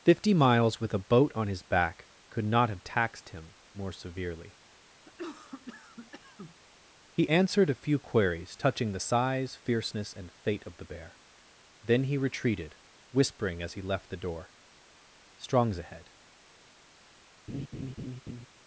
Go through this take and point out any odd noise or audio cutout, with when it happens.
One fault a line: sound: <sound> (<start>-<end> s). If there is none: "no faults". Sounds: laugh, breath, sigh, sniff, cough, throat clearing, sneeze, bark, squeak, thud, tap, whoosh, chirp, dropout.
sound: cough (5.0-6.6 s)
sound: laugh (17.5-18.5 s)